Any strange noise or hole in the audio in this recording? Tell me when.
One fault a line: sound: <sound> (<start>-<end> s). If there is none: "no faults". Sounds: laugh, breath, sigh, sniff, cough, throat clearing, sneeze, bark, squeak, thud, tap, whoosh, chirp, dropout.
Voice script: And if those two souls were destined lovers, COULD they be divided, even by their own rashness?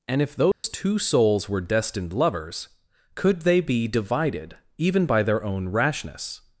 sound: dropout (0.5-0.6 s)